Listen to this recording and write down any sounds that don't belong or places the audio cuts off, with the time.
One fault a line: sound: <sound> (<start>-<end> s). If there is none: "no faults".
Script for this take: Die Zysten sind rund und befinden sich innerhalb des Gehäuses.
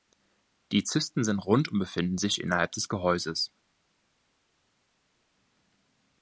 no faults